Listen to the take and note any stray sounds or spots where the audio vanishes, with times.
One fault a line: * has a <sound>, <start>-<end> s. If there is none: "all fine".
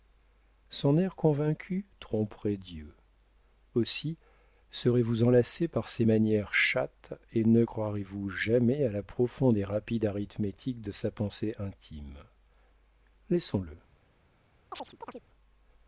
* has a chirp, 14.7-15.2 s